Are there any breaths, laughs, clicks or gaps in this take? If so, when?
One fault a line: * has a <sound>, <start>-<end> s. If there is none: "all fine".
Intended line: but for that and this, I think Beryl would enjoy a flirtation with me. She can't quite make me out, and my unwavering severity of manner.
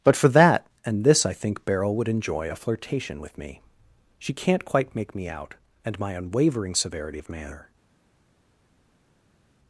all fine